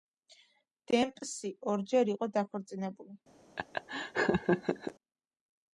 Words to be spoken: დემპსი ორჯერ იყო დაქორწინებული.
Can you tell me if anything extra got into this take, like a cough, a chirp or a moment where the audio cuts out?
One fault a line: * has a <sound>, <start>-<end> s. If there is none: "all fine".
* has a laugh, 3.6-4.9 s